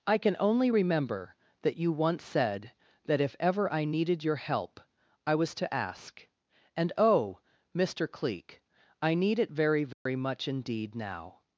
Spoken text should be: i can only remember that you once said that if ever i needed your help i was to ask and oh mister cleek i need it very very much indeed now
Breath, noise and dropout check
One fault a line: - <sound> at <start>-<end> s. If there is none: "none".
- dropout at 9.9-10.1 s